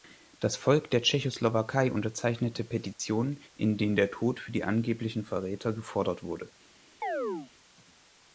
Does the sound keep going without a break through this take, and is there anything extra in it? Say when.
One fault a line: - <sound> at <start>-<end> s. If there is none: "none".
- dropout at 2.9-3.0 s
- chirp at 7.0-7.5 s